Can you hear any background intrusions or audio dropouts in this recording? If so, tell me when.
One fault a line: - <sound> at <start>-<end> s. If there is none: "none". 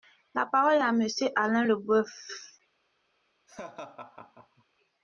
- laugh at 3.5-4.6 s